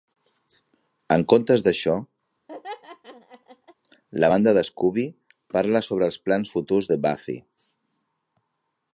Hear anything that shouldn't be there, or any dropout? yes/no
yes